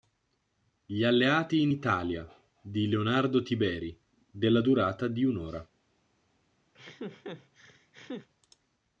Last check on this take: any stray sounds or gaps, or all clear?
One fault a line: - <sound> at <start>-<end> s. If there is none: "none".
- laugh at 6.7-8.3 s